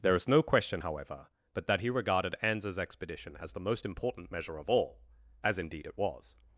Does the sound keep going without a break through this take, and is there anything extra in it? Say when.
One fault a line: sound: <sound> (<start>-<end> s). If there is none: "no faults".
no faults